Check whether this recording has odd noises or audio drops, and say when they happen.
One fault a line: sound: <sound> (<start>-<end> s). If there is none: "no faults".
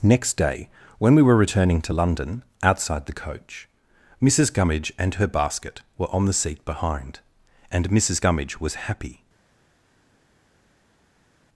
no faults